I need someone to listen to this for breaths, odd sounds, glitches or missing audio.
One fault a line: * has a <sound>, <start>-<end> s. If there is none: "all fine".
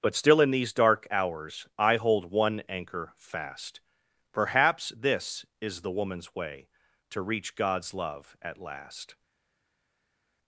all fine